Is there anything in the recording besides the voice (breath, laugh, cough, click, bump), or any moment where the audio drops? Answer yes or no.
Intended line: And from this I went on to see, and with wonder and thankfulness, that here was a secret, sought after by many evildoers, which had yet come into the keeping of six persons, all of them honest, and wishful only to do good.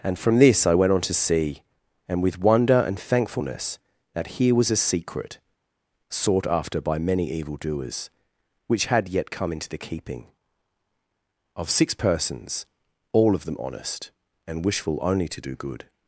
no